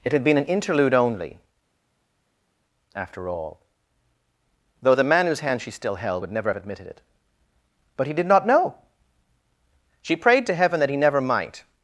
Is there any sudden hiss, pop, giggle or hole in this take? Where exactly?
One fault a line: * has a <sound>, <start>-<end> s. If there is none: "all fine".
all fine